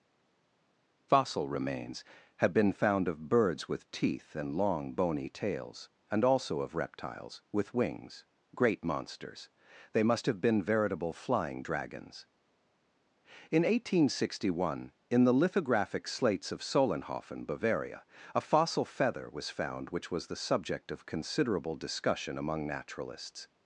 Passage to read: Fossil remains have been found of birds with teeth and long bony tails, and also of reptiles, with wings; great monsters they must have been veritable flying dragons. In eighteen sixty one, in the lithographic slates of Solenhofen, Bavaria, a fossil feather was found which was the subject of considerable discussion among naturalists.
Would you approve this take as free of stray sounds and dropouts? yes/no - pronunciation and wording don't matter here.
yes